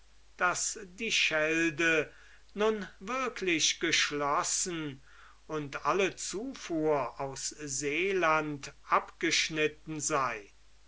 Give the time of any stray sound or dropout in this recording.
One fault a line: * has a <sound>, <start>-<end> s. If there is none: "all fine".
all fine